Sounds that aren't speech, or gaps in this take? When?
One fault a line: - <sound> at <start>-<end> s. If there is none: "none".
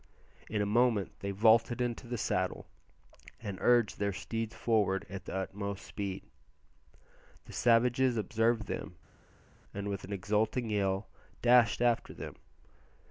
none